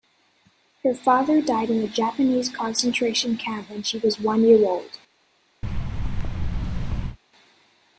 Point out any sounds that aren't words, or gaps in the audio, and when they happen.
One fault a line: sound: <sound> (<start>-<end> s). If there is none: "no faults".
sound: thud (5.6-7.2 s)